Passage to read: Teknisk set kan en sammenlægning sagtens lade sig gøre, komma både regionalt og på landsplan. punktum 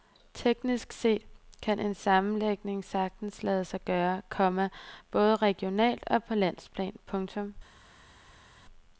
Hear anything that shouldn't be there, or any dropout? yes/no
no